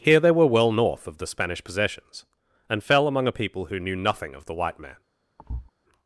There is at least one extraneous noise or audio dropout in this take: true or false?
true